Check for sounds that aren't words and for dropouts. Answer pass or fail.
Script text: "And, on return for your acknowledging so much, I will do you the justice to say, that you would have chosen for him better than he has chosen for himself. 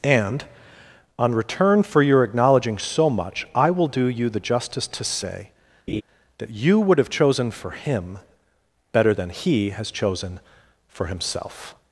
fail